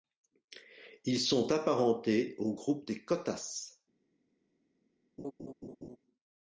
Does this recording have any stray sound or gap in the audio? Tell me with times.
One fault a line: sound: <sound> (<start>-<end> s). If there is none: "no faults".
sound: laugh (5.2-6.0 s)